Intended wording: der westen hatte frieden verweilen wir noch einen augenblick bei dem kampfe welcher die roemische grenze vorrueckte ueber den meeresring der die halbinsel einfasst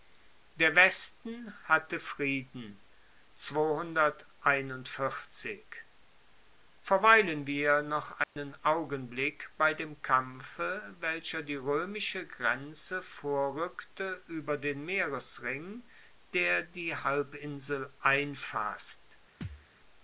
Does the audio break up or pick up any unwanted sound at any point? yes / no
yes